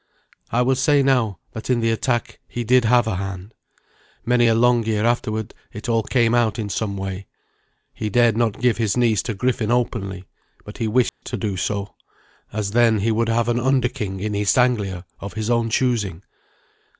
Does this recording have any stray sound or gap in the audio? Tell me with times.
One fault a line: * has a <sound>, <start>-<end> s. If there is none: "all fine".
* has a dropout, 11.1-11.2 s